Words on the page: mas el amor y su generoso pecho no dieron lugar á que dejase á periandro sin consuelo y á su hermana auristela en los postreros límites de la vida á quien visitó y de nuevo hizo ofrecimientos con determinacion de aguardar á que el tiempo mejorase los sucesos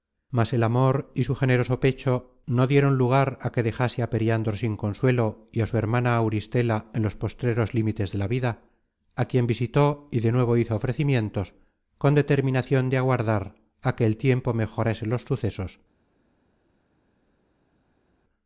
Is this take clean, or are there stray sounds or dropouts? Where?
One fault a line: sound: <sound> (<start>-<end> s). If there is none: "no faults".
no faults